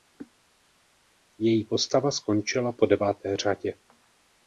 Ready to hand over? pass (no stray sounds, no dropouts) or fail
pass